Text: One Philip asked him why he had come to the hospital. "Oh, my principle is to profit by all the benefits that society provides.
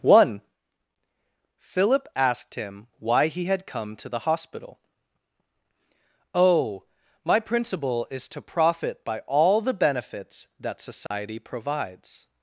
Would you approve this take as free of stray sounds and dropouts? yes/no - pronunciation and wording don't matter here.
no